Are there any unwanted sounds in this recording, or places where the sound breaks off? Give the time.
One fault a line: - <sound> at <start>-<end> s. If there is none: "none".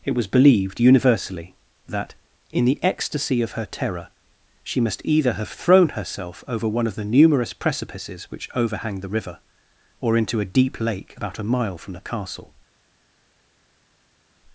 none